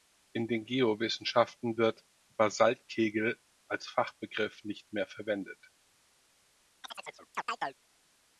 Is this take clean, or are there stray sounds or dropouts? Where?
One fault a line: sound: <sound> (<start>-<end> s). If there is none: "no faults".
sound: chirp (6.8-7.8 s)